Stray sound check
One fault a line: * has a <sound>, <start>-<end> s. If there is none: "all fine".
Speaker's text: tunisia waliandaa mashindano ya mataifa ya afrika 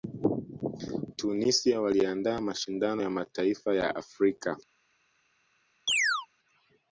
* has a chirp, 5.9-6.3 s